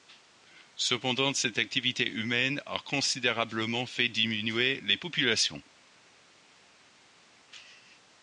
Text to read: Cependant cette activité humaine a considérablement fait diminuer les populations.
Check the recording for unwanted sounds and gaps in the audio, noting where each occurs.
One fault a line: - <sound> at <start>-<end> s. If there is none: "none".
none